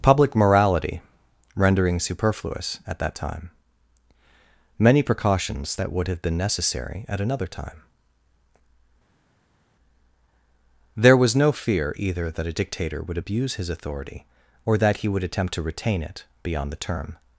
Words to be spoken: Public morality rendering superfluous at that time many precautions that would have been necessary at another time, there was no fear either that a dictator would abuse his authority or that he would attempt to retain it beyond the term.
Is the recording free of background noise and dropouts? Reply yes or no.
yes